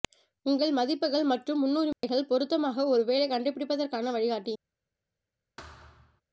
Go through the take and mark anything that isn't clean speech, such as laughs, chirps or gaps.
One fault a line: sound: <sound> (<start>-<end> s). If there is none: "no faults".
sound: dropout (1.9-2.0 s)
sound: thud (5.6-6.2 s)